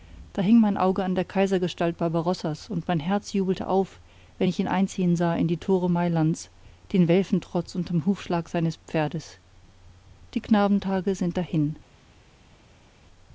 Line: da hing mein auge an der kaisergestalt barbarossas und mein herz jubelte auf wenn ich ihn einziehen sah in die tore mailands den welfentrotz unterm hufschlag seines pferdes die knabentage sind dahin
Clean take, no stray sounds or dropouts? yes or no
yes